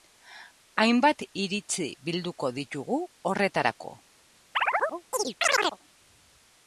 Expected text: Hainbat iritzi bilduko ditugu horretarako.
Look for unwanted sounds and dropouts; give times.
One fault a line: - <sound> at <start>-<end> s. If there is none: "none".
- chirp at 4.5-5.8 s